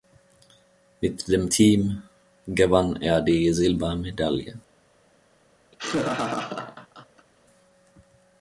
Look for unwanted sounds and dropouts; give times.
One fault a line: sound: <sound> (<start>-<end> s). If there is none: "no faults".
sound: laugh (5.7-7.3 s)